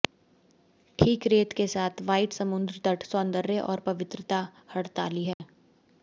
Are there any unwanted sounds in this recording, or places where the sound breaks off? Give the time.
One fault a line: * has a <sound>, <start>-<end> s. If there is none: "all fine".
* has a dropout, 5.3-5.4 s